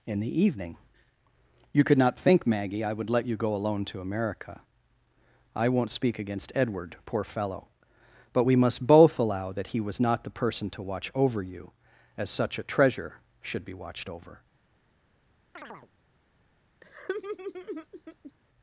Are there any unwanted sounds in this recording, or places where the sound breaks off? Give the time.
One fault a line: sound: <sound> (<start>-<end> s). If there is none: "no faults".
sound: chirp (15.6-15.9 s)
sound: laugh (16.8-18.3 s)